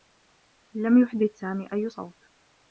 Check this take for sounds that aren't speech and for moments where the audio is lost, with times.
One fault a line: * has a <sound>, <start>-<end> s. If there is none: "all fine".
all fine